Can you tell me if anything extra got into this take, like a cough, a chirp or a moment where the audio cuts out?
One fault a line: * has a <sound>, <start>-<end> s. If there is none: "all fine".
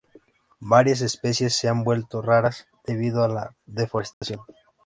* has a dropout, 4.1-4.2 s